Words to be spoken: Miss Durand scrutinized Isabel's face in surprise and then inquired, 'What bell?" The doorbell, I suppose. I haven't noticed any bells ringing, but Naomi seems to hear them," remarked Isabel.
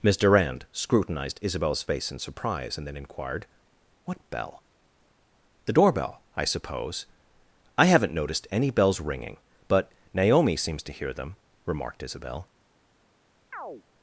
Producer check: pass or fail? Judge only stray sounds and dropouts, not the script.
fail